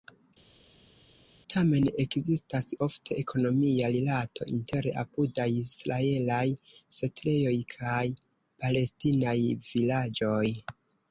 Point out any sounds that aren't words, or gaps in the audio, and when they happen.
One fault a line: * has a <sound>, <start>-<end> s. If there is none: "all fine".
all fine